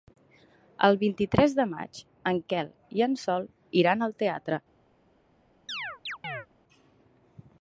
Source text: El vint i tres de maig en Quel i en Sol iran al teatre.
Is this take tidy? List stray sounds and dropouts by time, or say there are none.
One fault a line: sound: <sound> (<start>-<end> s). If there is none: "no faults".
sound: chirp (5.7-6.5 s)